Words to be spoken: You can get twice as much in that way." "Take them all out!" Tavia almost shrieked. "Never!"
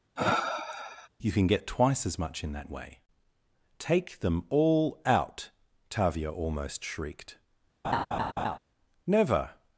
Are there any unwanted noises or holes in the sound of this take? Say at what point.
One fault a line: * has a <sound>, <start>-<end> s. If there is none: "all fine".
* has a sniff, 0.2-1.1 s
* has a laugh, 7.8-8.6 s